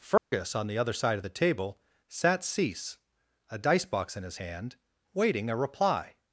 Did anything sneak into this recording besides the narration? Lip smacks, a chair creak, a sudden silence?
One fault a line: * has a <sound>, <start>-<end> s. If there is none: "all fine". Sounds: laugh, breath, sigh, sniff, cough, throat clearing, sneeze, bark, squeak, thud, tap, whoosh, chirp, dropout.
* has a dropout, 0.2-0.3 s